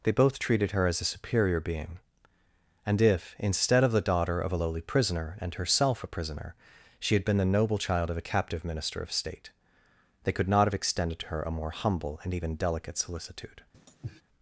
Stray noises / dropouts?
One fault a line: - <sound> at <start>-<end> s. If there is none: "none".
- sniff at 13.7-14.2 s